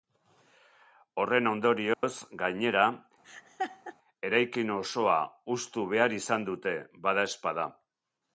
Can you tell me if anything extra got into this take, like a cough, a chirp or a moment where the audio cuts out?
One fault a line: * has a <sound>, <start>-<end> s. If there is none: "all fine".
* has a dropout, 1.9-2.0 s
* has a laugh, 3.2-4.0 s